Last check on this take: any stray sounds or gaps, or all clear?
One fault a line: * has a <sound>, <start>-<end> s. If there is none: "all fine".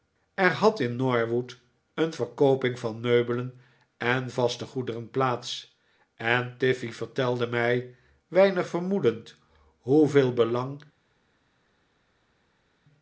all fine